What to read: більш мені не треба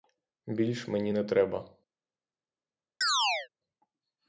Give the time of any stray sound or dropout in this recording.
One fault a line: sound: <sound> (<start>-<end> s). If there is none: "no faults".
sound: chirp (3.0-3.5 s)